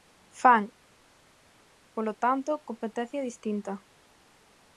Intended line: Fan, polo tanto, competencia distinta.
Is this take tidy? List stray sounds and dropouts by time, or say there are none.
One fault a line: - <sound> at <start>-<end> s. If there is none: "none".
none